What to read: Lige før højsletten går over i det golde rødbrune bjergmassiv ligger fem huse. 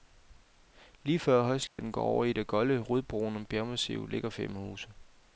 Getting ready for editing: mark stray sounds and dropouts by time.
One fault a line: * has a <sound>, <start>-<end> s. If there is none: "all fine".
* has a dropout, 1.7-1.8 s